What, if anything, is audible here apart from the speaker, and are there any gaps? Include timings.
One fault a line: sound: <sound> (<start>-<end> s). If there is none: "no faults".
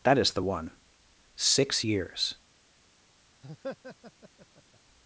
sound: laugh (3.4-4.8 s)